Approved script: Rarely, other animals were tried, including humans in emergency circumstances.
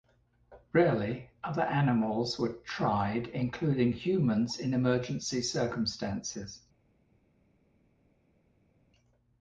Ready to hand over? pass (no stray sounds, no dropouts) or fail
pass